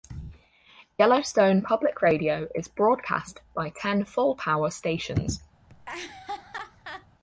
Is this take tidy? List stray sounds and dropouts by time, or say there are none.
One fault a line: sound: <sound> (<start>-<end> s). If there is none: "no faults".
sound: laugh (5.7-7.1 s)